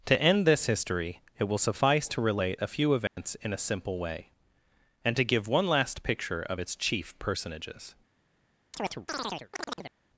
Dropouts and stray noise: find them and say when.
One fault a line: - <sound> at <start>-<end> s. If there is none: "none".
- dropout at 3.1-3.2 s
- chirp at 8.7-9.9 s